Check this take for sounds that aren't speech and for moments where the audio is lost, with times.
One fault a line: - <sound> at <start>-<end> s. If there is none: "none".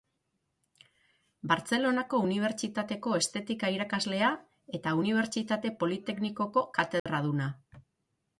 - dropout at 7.0-7.1 s